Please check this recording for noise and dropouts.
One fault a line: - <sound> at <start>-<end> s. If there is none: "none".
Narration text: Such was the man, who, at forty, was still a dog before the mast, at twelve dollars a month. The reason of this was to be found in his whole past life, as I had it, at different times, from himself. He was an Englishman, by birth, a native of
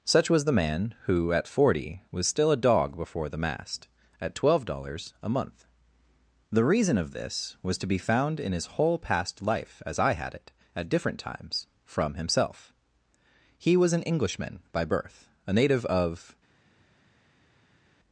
none